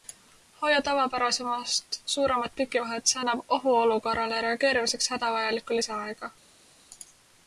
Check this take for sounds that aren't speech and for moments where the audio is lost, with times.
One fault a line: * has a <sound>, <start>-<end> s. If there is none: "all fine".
all fine